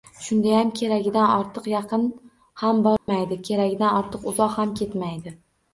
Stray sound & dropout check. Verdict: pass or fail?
fail